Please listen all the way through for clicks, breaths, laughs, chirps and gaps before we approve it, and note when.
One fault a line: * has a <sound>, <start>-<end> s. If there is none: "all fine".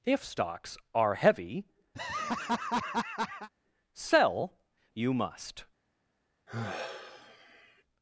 * has a laugh, 1.9-3.5 s
* has a sigh, 6.5-7.8 s